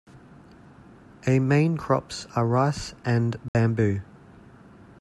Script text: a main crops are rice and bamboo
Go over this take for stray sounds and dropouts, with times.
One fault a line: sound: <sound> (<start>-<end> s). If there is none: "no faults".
sound: dropout (3.5-3.5 s)